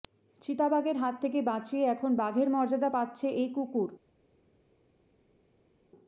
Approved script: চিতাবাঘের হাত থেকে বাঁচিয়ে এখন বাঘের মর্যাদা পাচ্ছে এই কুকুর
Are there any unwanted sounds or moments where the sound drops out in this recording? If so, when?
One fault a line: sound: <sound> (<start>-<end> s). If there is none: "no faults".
no faults